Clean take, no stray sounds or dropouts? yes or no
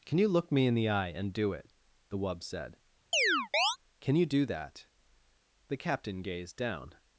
no